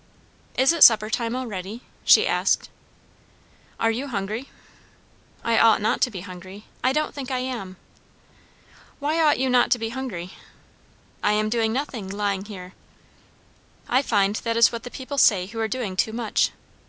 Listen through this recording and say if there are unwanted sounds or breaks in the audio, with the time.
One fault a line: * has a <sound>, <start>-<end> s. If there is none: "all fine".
all fine